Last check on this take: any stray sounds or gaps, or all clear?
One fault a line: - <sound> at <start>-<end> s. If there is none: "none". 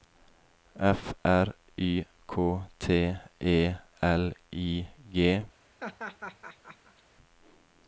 - laugh at 5.8-7.0 s